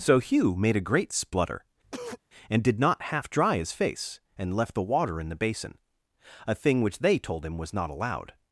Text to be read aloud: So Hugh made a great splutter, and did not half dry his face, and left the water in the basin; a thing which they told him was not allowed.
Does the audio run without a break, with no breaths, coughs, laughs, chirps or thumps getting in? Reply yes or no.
no